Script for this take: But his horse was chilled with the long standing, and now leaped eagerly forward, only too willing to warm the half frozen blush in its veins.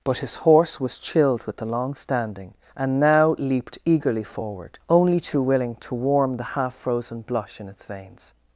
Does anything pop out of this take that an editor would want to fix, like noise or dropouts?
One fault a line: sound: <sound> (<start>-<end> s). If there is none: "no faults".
no faults